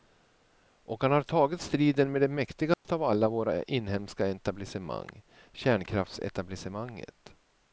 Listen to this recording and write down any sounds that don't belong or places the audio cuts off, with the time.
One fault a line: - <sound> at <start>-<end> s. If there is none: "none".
- dropout at 2.7-2.8 s